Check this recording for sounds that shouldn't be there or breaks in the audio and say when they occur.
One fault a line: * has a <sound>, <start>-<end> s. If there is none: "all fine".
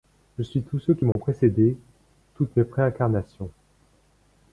* has a dropout, 1.1-1.2 s